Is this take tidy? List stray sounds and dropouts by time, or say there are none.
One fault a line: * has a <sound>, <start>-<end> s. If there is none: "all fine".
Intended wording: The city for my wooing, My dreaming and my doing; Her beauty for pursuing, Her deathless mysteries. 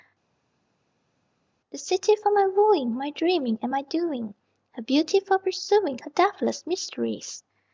all fine